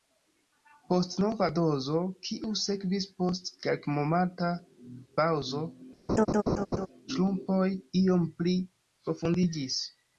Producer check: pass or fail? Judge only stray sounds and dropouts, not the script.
fail